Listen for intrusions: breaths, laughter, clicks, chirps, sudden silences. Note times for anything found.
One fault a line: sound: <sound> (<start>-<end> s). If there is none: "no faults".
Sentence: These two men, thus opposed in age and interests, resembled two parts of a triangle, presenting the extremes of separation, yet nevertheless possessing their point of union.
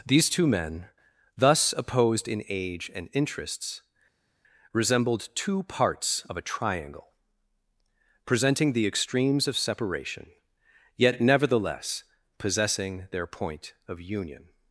no faults